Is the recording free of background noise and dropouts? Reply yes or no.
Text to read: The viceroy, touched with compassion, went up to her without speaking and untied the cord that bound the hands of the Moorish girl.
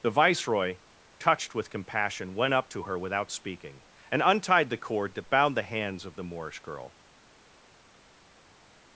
yes